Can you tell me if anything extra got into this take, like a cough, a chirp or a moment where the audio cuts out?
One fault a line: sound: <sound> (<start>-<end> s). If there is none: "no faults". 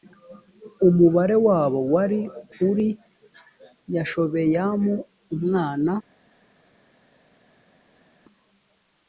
no faults